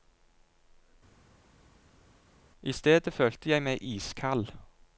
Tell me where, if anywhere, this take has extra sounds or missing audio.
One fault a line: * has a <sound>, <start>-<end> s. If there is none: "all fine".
all fine